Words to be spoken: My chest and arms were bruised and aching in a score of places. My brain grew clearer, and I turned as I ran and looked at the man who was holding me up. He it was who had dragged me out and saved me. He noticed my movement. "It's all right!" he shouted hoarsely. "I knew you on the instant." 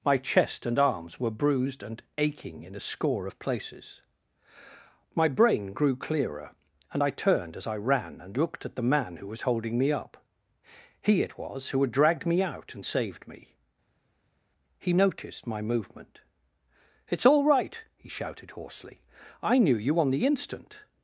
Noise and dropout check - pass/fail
pass